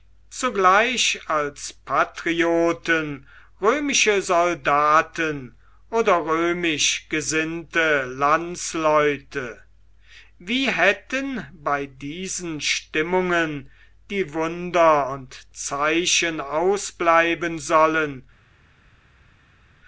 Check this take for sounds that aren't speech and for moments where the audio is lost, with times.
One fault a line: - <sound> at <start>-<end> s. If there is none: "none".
none